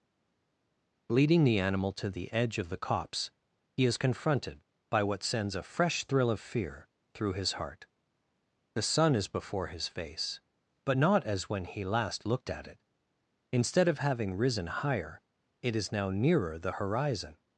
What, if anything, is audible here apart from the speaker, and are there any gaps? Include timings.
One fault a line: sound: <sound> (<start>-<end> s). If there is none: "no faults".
no faults